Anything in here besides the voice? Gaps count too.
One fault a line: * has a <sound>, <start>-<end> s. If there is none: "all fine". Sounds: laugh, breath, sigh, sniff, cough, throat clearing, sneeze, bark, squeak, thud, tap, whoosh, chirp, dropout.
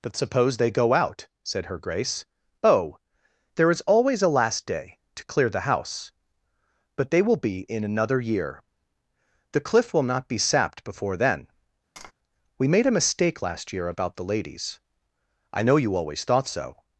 * has a tap, 12.0-12.1 s